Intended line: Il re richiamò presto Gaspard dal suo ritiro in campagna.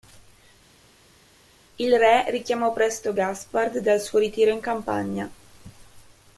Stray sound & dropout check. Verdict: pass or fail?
pass